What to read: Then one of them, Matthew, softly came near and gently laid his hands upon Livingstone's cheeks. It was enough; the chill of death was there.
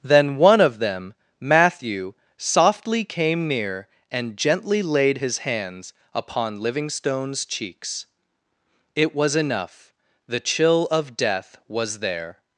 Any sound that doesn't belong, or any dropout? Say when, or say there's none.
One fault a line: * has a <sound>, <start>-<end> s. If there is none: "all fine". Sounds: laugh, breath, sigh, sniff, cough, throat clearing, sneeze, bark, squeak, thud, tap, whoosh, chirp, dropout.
all fine